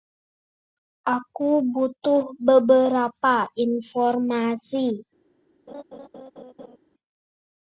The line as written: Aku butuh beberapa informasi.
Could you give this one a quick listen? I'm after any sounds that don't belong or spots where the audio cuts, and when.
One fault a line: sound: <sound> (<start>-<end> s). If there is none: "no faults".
sound: laugh (5.7-6.8 s)